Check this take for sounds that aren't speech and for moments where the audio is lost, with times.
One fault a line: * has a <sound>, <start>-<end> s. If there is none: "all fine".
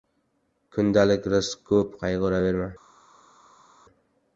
all fine